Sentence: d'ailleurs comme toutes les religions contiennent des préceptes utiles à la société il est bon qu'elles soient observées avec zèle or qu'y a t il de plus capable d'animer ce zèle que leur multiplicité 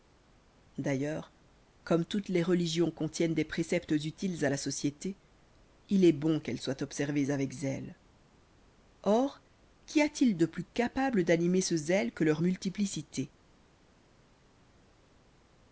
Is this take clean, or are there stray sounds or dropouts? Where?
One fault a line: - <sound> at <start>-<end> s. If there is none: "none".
none